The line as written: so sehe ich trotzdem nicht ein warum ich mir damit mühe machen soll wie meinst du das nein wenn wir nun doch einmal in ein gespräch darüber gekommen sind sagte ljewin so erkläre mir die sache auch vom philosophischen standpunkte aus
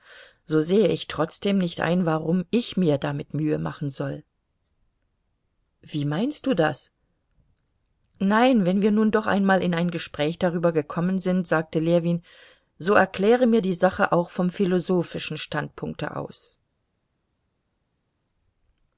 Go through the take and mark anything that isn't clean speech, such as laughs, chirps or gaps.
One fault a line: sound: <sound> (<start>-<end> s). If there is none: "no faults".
no faults